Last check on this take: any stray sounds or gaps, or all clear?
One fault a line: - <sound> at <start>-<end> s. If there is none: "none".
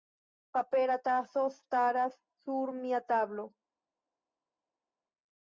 none